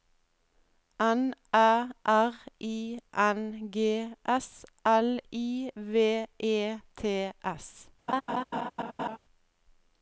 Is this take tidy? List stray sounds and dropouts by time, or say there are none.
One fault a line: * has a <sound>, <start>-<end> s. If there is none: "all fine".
* has a laugh, 8.1-9.2 s